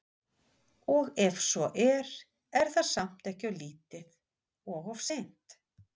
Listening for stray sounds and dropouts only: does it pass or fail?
pass